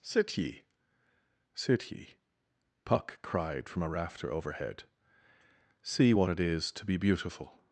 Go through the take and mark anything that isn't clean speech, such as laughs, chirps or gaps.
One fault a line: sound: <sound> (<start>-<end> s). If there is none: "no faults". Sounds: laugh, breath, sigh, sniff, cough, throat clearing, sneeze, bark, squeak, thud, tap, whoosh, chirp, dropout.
no faults